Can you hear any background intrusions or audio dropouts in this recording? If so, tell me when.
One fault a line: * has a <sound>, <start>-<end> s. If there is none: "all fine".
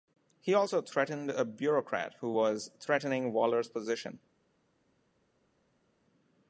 all fine